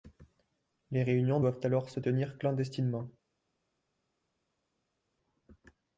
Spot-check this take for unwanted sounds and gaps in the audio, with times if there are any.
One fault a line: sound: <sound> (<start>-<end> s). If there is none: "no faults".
no faults